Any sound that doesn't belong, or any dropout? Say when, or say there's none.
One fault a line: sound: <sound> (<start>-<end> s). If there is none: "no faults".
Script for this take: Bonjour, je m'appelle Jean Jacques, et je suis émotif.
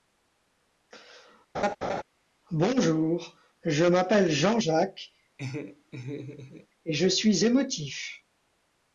sound: laugh (1.5-2.0 s)
sound: laugh (5.4-6.7 s)